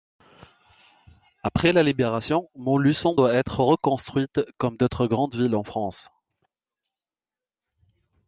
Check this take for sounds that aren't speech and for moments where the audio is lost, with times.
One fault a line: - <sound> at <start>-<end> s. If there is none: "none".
none